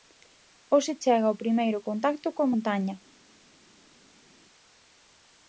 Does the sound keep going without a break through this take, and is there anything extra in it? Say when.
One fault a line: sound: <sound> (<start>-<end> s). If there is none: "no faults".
no faults